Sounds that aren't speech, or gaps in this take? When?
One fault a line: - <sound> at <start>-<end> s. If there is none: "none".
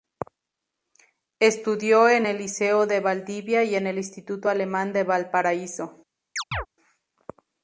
- chirp at 6.4-6.7 s